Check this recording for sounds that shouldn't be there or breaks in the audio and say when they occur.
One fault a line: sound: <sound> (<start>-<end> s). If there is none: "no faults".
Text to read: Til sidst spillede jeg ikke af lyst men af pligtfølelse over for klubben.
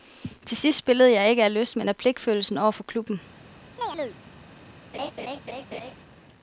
sound: chirp (3.8-4.2 s)
sound: laugh (4.9-5.9 s)